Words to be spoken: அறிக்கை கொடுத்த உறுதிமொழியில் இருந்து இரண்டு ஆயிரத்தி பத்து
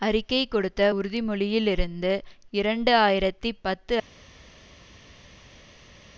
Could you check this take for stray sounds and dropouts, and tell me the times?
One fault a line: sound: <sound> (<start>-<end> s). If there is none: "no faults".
no faults